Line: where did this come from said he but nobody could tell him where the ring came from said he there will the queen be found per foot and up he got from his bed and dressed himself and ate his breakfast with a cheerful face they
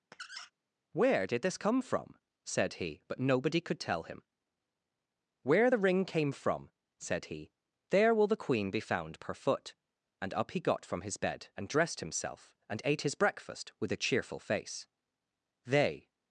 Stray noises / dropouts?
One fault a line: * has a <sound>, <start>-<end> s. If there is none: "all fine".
* has a squeak, 0.1-0.5 s